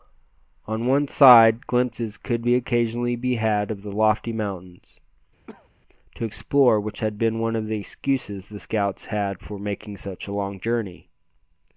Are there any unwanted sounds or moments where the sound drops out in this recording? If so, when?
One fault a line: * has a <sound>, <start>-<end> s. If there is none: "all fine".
* has a cough, 5.5-5.7 s